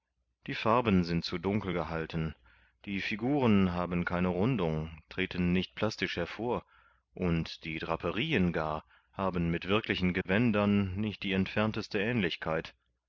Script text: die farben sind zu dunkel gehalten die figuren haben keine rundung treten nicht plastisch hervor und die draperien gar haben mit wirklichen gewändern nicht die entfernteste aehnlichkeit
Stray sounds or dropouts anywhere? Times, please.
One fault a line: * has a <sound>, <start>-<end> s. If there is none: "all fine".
* has a dropout, 10.2-10.3 s